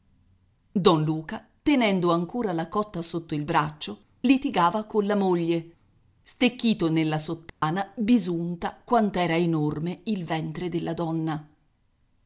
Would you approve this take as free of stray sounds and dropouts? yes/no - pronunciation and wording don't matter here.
no